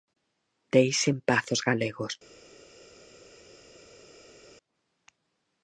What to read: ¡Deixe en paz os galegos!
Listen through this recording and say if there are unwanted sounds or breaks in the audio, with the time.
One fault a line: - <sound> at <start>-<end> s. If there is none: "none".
none